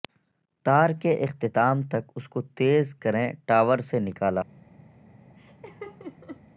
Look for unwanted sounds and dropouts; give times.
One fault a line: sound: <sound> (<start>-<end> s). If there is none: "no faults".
sound: laugh (5.4-6.4 s)